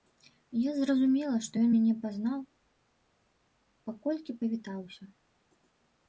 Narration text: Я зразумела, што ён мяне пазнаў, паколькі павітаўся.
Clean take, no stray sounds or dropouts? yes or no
yes